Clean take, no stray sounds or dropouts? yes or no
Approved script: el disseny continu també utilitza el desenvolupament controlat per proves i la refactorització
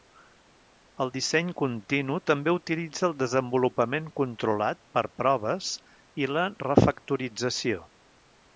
yes